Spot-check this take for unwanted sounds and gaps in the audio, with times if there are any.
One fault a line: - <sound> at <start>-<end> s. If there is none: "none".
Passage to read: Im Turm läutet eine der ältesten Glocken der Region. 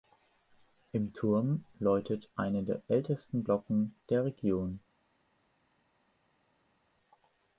none